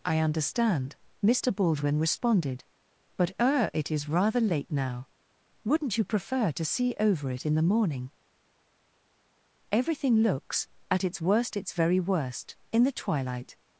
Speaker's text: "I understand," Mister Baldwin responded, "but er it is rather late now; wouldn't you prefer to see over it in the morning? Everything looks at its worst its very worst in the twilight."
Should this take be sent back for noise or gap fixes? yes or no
no